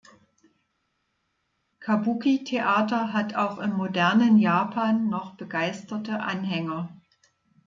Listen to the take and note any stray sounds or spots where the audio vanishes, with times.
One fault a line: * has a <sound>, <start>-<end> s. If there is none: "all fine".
all fine